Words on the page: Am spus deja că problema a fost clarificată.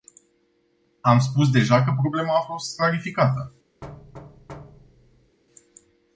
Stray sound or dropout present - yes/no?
yes